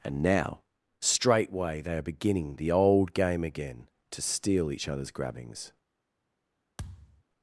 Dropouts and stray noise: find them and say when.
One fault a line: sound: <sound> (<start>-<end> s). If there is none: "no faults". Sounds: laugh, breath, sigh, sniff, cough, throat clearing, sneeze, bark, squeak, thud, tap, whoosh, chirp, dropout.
sound: thud (6.8-7.2 s)